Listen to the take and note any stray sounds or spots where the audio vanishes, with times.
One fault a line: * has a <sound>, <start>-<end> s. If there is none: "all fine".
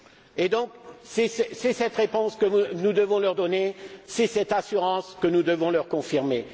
all fine